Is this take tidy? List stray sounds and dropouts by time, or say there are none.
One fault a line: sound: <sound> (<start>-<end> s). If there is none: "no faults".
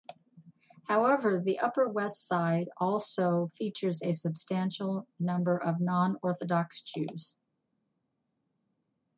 no faults